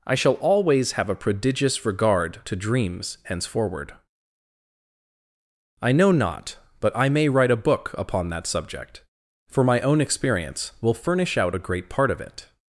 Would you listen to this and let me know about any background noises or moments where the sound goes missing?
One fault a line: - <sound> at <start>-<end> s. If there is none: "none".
none